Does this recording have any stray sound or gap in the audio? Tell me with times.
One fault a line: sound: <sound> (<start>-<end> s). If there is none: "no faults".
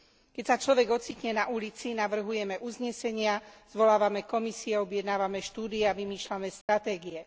sound: dropout (6.6-6.7 s)